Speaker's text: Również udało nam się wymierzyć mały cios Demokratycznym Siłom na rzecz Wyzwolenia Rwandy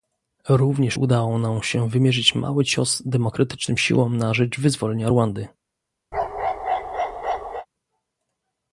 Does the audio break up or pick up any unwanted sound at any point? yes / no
yes